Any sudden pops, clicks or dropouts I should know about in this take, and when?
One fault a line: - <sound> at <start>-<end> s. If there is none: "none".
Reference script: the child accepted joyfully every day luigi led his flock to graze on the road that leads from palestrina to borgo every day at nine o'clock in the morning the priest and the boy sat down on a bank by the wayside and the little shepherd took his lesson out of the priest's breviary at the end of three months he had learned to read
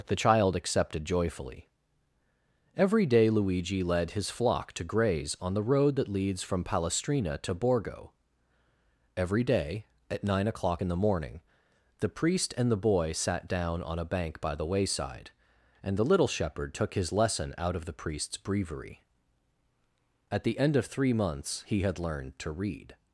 none